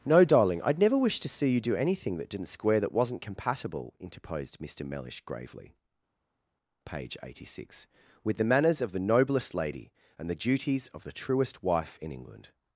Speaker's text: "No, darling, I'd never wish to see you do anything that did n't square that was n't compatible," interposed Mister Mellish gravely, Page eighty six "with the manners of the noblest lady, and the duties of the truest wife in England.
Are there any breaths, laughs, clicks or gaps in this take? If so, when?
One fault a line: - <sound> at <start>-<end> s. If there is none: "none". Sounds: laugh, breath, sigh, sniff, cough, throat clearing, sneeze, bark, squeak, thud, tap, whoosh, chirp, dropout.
none